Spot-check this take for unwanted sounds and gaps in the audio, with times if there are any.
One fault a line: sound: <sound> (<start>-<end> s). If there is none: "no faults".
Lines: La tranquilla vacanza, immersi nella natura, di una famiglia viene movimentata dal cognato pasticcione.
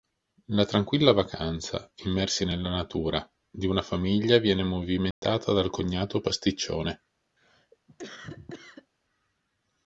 sound: dropout (5.1-5.2 s)
sound: cough (7.4-8.9 s)